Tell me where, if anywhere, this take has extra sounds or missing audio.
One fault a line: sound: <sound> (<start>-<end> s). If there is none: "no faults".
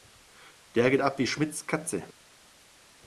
no faults